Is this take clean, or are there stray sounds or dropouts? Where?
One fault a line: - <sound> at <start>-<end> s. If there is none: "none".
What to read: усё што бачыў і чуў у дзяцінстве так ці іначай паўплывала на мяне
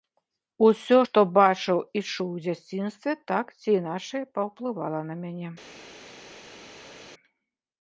none